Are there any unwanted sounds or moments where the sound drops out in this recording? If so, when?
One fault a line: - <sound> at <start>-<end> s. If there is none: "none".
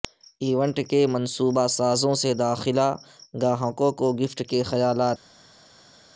none